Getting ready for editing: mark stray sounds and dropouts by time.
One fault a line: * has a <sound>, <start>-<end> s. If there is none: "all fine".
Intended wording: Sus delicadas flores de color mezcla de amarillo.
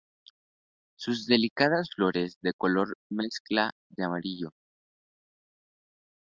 all fine